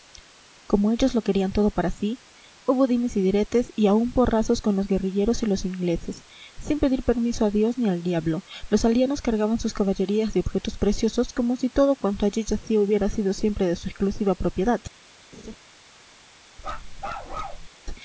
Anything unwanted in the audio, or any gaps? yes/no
yes